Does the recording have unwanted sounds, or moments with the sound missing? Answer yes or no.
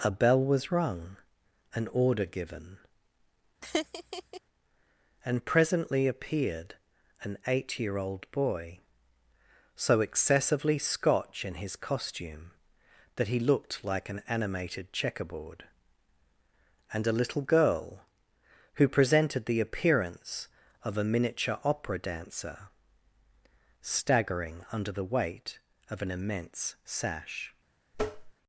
yes